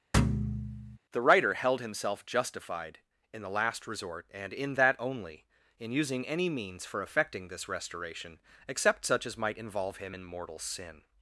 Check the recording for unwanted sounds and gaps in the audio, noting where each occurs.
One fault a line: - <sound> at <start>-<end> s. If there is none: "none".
- thud at 0.1-1.0 s